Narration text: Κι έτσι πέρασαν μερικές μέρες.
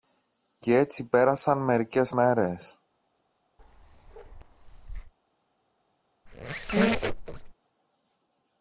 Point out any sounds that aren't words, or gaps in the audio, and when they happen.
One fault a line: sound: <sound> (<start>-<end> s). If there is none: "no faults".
sound: bark (3.6-5.1 s)
sound: squeak (6.3-7.5 s)